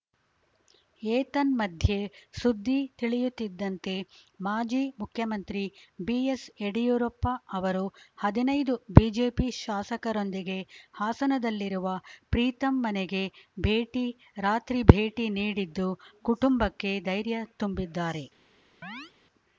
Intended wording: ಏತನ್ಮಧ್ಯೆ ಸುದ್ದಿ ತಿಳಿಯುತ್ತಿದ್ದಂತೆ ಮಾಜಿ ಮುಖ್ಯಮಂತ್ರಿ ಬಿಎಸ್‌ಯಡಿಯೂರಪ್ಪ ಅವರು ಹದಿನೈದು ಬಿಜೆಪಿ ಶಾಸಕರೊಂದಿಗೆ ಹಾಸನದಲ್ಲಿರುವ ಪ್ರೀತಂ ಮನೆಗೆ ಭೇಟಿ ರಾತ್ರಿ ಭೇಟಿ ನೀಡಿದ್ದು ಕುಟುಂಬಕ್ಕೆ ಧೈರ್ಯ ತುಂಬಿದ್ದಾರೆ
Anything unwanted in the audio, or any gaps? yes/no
yes